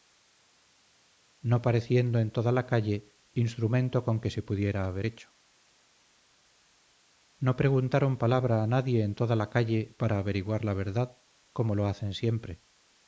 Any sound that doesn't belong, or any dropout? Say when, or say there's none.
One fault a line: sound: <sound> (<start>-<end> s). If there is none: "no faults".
no faults